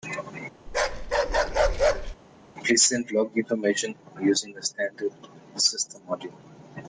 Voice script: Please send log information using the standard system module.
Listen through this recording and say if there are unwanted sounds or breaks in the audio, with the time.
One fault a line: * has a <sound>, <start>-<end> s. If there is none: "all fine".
* has a bark, 0.7-2.2 s